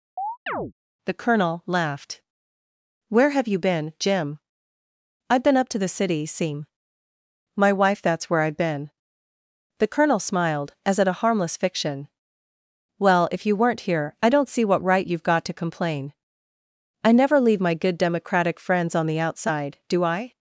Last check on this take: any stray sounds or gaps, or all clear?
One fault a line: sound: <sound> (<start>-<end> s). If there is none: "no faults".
sound: chirp (0.2-0.7 s)